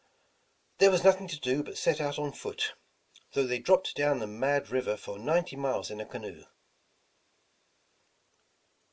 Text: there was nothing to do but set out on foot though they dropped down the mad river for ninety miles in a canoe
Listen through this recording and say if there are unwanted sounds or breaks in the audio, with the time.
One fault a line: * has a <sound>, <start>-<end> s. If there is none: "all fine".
all fine